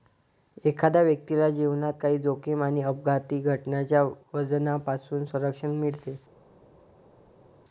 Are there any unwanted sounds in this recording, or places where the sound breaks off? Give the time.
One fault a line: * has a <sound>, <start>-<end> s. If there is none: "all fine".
all fine